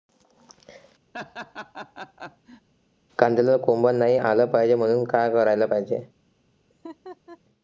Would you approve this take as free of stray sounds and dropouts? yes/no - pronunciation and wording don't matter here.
no